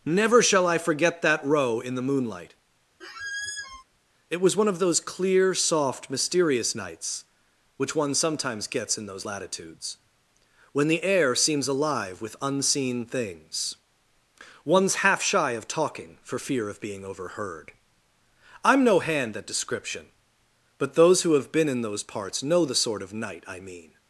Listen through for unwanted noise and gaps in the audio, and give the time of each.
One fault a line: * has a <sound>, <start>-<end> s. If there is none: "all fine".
* has a squeak, 3.0-3.8 s